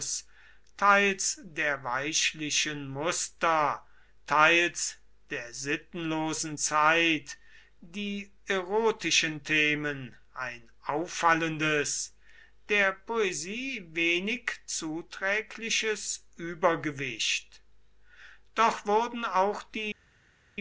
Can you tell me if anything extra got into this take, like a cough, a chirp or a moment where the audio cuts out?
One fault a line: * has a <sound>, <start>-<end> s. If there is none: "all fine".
all fine